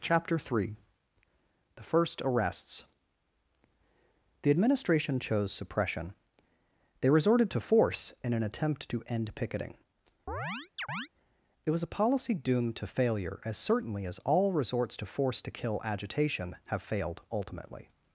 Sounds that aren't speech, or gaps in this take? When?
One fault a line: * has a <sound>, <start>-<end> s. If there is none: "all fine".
* has a chirp, 10.3-11.1 s